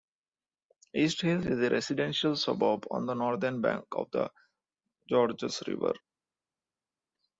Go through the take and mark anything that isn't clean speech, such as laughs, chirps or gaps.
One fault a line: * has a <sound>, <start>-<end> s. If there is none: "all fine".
all fine